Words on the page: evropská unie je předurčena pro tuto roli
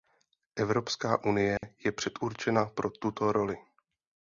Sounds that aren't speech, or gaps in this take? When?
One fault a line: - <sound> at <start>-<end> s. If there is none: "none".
- dropout at 1.6-1.6 s